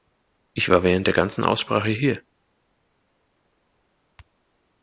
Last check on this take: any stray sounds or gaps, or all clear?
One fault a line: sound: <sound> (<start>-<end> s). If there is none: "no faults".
no faults